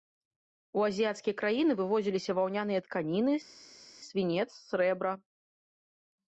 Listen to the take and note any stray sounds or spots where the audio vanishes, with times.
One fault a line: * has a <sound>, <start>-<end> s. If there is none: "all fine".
all fine